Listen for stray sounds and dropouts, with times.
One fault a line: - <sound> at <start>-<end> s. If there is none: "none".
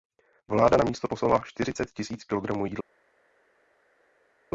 none